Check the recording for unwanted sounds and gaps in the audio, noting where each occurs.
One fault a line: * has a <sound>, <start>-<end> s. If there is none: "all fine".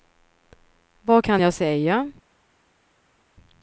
all fine